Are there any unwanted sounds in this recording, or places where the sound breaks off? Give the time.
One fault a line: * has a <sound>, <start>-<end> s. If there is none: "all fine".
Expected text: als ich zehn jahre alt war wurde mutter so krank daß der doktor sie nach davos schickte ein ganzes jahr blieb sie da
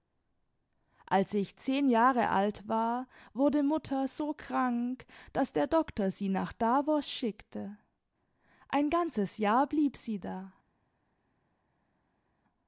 all fine